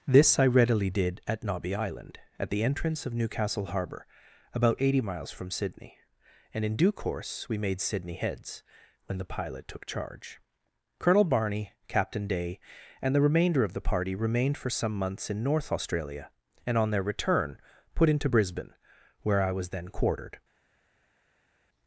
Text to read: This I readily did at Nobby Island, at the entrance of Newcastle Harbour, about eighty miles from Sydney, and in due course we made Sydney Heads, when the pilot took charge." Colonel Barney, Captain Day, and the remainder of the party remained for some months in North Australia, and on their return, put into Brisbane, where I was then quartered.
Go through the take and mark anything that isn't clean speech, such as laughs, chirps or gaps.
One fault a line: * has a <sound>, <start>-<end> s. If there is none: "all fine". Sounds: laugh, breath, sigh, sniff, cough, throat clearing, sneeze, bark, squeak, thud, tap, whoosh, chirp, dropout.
all fine